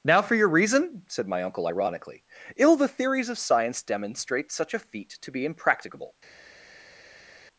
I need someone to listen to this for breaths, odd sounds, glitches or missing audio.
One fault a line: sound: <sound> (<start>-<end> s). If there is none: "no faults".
no faults